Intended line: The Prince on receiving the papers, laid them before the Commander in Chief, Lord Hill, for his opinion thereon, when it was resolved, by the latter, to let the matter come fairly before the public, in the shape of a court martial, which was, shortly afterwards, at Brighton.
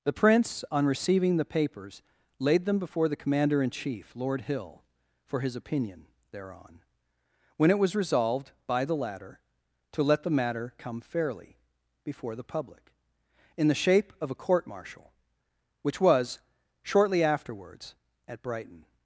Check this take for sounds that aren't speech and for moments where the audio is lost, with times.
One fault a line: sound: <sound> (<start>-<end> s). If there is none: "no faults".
no faults